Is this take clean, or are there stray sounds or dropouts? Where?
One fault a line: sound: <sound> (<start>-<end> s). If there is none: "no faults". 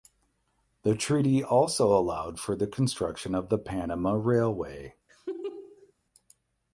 sound: laugh (5.1-5.9 s)